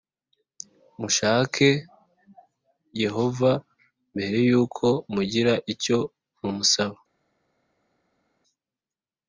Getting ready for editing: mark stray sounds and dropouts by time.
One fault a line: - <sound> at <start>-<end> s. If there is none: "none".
none